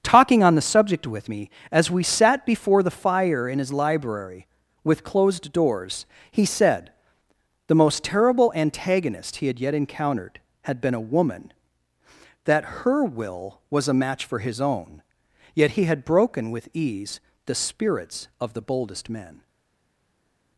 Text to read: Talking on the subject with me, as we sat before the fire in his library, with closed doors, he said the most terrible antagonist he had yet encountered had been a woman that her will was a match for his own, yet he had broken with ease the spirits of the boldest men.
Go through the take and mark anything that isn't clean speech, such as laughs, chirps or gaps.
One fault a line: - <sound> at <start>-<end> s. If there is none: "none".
none